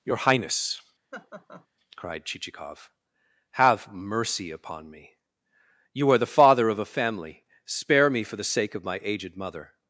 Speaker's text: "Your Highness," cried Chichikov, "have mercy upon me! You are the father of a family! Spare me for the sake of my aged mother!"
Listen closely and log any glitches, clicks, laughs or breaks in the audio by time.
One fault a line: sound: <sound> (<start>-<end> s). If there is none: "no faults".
sound: laugh (1.1-1.7 s)